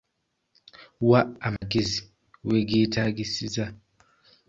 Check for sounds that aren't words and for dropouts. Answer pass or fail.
fail